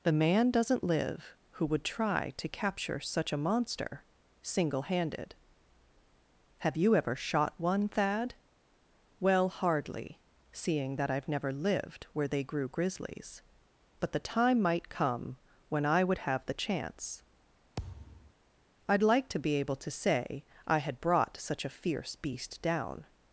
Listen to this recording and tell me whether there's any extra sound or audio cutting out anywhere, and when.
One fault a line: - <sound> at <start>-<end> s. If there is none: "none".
- thud at 17.8-18.3 s